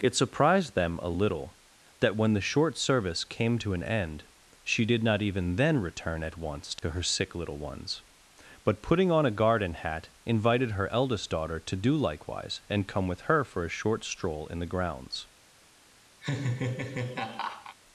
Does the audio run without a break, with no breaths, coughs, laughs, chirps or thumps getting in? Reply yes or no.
no